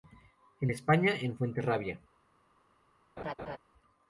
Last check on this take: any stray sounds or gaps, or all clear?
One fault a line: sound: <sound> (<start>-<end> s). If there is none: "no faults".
sound: laugh (3.2-3.6 s)